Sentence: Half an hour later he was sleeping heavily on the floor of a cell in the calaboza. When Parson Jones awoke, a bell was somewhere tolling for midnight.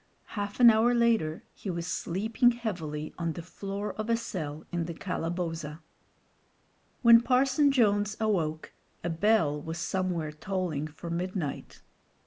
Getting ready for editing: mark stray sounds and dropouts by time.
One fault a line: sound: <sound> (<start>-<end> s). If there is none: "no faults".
no faults